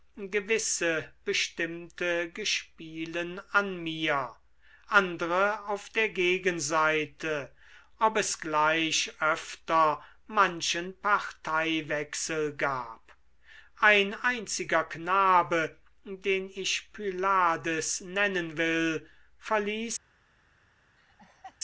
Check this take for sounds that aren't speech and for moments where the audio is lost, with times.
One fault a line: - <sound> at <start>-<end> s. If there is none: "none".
- laugh at 21.0-21.6 s